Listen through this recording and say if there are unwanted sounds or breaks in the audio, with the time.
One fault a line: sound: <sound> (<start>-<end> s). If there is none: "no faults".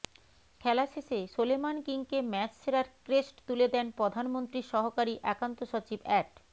no faults